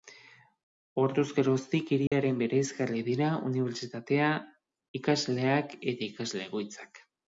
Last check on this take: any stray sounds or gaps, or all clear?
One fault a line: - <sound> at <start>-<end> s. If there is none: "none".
- dropout at 2.1-2.1 s